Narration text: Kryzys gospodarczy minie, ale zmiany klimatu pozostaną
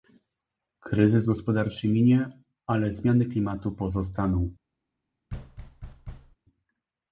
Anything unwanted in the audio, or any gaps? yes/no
yes